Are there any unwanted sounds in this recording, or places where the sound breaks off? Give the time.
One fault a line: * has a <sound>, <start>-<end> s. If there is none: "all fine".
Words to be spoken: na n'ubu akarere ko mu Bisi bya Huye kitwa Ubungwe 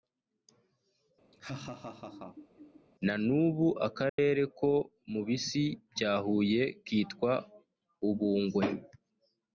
* has a laugh, 1.3-2.9 s
* has a dropout, 4.1-4.2 s